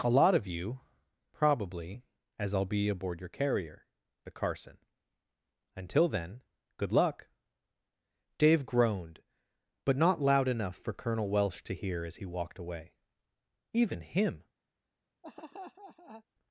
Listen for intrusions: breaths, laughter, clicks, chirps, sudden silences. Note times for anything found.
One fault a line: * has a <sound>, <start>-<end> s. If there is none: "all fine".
* has a laugh, 15.2-16.2 s